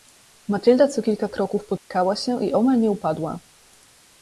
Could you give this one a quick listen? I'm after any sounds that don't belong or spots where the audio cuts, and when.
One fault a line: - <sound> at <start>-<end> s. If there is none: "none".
- dropout at 1.8-1.9 s